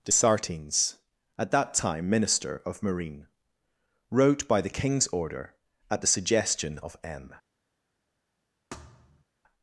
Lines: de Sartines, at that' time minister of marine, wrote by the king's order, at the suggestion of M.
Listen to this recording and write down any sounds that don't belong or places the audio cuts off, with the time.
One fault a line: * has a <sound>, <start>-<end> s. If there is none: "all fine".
* has a thud, 8.7-9.2 s